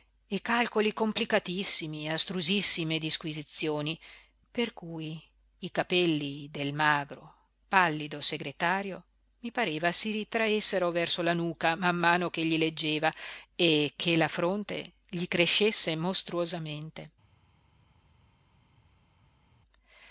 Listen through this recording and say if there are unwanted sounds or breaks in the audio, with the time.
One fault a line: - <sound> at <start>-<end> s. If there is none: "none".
none